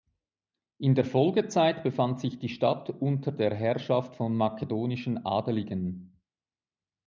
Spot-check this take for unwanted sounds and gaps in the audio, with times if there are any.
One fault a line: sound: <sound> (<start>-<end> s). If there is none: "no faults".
no faults